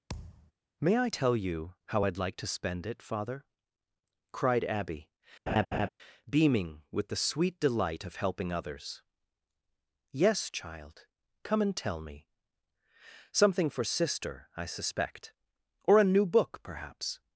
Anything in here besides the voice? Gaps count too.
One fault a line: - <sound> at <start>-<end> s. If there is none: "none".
- thud at 0.1-0.5 s
- laugh at 5.5-5.9 s